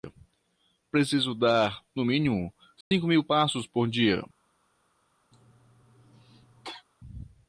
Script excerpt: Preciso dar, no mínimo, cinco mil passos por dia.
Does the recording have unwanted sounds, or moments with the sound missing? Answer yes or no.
yes